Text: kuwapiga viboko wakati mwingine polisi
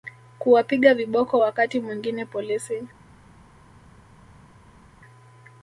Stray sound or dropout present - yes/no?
no